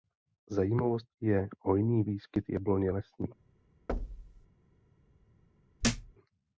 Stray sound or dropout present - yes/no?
yes